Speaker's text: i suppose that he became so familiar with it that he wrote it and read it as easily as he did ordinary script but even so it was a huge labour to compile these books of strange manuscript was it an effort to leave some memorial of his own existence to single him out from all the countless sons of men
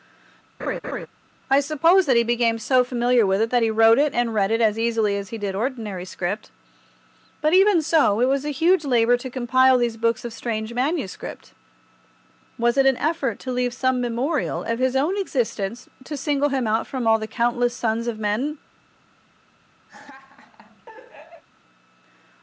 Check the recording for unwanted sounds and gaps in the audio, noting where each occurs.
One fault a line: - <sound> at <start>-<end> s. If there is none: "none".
- laugh at 0.6-1.1 s
- laugh at 19.9-21.4 s